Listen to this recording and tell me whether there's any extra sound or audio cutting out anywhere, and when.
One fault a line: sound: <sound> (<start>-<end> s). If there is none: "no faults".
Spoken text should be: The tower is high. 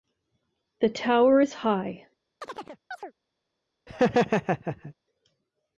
sound: chirp (2.4-3.1 s)
sound: laugh (3.9-4.9 s)